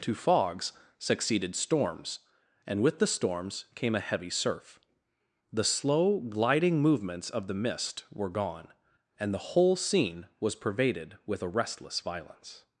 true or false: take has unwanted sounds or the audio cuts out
false